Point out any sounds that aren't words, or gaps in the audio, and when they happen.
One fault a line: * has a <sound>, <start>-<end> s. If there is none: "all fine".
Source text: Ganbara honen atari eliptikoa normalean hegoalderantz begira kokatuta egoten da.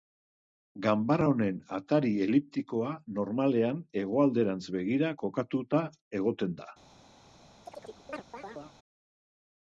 * has a chirp, 7.7-8.8 s